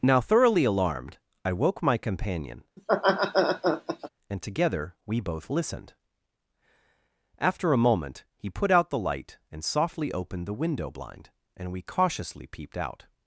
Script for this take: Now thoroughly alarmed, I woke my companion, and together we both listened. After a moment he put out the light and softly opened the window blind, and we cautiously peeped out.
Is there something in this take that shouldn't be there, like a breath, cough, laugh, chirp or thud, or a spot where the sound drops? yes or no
yes